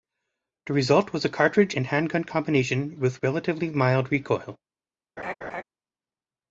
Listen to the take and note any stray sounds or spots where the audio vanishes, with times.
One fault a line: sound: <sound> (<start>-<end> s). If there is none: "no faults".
sound: laugh (5.2-5.6 s)